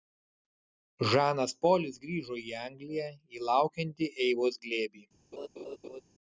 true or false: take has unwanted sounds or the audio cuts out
true